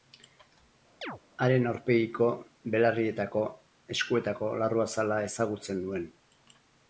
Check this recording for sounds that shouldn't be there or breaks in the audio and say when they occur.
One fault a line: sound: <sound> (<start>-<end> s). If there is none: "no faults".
sound: chirp (1.0-1.2 s)